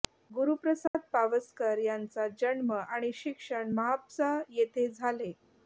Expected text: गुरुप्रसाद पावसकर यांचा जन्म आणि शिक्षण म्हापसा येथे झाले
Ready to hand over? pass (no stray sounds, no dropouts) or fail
fail